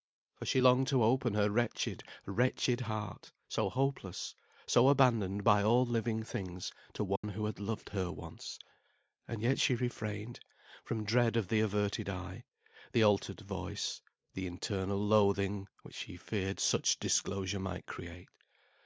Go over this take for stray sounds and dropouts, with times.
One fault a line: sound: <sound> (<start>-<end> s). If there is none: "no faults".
sound: dropout (7.2-7.2 s)